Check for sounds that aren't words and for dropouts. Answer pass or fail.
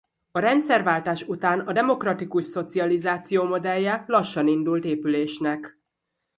pass